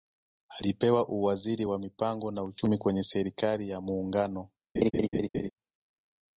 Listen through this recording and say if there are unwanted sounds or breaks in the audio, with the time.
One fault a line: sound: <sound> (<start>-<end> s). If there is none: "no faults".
sound: laugh (4.8-5.5 s)